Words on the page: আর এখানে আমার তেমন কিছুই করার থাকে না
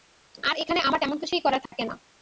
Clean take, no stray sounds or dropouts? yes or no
no